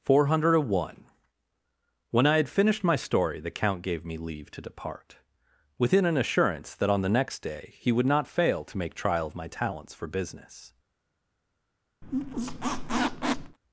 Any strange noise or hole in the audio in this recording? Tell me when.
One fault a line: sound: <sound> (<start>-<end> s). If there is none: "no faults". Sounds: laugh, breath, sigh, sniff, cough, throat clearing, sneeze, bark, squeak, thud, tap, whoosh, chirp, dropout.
sound: squeak (12.0-13.6 s)